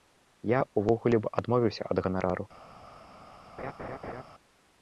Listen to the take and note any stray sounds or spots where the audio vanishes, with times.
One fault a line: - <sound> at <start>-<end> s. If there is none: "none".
- laugh at 3.6-4.2 s